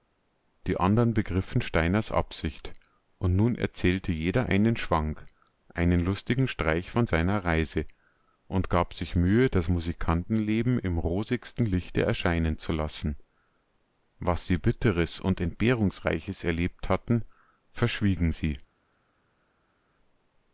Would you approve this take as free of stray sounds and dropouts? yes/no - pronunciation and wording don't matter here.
yes